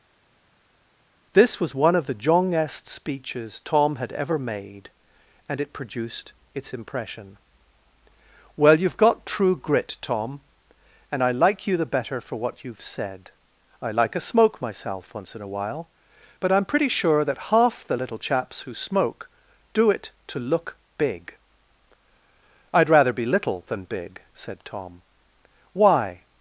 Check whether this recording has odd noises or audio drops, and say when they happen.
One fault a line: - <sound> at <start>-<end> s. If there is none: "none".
none